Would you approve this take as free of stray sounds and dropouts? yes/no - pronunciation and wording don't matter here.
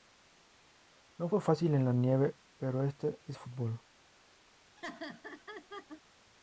no